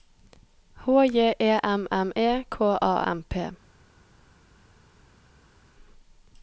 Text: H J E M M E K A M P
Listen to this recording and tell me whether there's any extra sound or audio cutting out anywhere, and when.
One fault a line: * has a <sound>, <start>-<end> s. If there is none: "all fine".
all fine